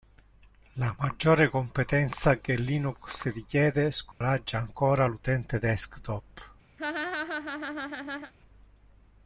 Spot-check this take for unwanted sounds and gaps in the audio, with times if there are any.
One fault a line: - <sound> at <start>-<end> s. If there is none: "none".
- dropout at 4.1-4.2 s
- laugh at 6.8-8.3 s